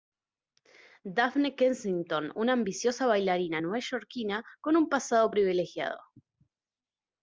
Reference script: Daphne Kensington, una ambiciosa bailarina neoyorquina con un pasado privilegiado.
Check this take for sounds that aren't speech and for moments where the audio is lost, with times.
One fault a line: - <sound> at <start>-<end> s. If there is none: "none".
none